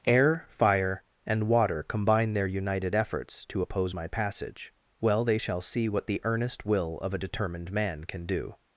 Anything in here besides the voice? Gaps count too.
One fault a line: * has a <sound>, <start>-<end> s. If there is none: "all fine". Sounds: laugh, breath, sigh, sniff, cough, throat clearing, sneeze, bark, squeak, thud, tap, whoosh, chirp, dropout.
all fine